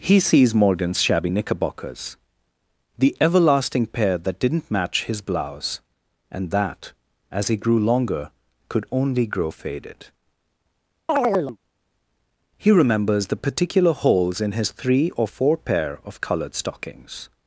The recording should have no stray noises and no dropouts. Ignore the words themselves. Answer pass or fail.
fail